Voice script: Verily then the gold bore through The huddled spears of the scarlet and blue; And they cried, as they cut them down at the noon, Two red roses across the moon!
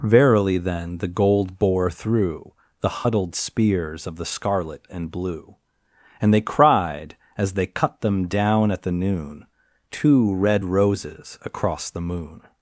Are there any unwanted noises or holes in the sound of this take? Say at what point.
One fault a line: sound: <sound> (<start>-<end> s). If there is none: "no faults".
no faults